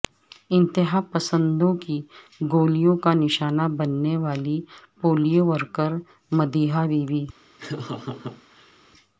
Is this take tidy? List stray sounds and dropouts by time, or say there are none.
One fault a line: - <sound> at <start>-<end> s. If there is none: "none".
- laugh at 7.6-8.8 s